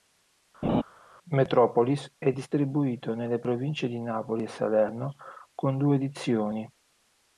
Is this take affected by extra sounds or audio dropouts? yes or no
yes